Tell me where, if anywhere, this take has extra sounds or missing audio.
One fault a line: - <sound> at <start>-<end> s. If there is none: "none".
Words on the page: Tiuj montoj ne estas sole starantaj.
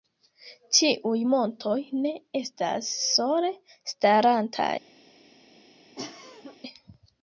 - cough at 6.0-6.6 s